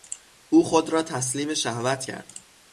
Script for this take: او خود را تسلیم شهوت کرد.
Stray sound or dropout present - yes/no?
no